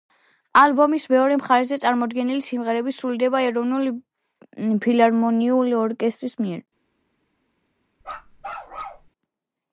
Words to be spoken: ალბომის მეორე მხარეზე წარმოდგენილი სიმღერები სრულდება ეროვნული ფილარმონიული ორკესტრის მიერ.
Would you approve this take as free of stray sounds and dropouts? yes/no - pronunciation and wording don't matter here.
no